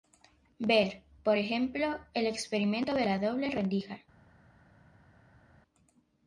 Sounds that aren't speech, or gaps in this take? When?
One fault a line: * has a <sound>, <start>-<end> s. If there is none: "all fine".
all fine